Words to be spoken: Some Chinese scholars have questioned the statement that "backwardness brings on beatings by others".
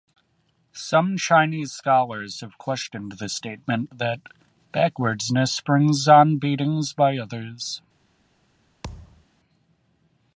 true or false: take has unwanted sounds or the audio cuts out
true